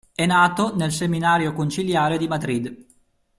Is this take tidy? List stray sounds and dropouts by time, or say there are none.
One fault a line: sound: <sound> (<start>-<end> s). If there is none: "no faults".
no faults